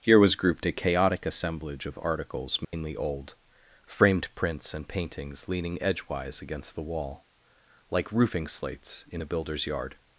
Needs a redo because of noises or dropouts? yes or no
yes